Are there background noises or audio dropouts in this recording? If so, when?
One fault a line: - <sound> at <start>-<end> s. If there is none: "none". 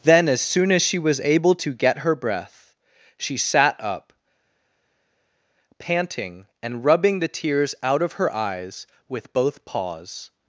none